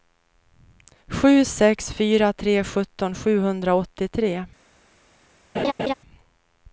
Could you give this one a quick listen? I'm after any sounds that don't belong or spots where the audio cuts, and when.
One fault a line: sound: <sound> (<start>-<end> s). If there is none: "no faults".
sound: laugh (5.5-5.9 s)